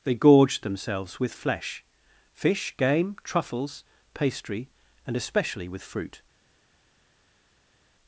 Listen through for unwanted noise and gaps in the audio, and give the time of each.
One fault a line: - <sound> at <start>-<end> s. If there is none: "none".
none